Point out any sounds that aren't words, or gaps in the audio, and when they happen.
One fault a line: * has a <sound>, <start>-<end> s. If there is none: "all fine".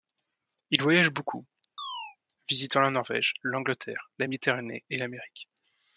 * has a chirp, 1.8-2.2 s